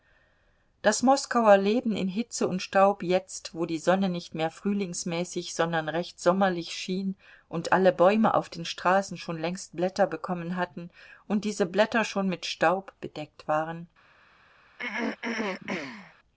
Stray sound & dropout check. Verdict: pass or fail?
fail